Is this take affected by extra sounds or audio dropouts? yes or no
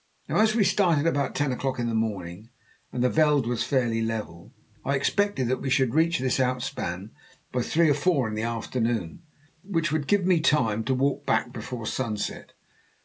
no